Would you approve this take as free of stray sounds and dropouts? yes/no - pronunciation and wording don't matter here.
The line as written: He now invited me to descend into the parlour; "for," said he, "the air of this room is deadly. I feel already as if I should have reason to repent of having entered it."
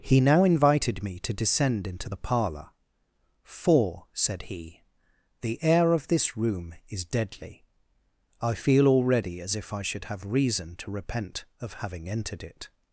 yes